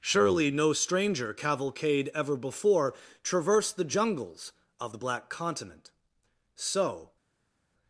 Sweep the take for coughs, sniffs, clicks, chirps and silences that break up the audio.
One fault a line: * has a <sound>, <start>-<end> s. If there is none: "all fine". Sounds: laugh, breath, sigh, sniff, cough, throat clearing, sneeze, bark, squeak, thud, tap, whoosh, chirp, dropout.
all fine